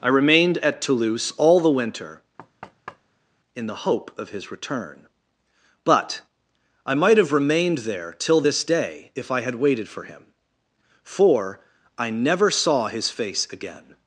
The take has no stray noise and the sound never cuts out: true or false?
false